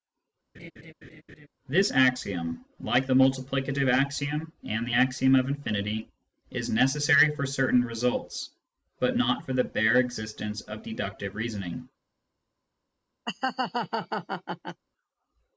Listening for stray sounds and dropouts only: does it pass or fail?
fail